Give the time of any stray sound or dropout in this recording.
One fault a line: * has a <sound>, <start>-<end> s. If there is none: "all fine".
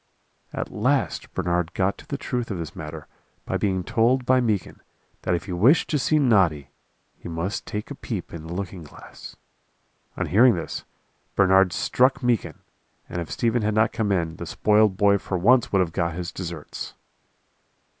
all fine